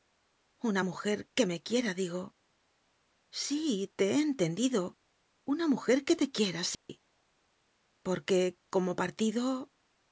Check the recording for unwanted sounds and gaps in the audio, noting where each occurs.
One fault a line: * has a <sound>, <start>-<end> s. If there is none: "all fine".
* has a dropout, 6.7-6.9 s